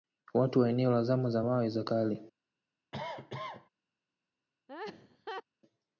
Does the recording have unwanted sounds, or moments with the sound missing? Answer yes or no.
yes